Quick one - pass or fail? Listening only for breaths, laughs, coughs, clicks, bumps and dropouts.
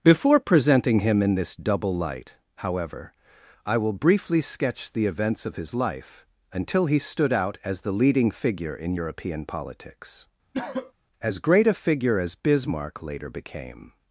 fail